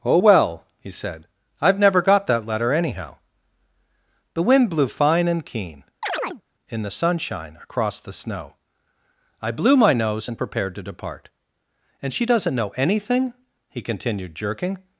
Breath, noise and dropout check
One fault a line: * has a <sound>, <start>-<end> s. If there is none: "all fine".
* has a chirp, 6.0-6.4 s